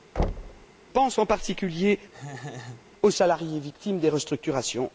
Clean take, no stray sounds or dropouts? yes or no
no